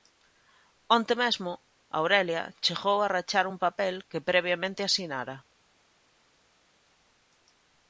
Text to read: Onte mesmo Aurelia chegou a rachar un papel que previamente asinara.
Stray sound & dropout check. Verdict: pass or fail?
pass